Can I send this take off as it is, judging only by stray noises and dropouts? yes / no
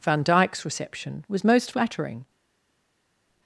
yes